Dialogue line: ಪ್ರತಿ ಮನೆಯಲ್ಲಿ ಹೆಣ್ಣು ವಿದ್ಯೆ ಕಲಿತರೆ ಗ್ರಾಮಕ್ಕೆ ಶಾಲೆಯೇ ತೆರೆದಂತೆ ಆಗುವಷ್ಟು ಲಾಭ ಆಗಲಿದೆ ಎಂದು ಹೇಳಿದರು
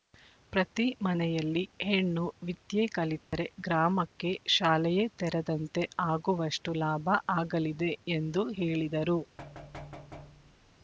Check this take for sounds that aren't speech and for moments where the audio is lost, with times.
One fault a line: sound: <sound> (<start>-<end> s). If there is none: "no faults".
sound: dropout (3.2-3.3 s)
sound: thud (9.4-10.8 s)